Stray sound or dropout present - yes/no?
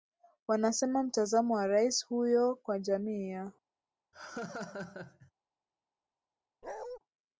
yes